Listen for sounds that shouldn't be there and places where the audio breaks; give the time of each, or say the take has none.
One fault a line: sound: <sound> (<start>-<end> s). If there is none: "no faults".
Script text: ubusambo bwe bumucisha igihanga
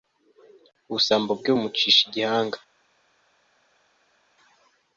no faults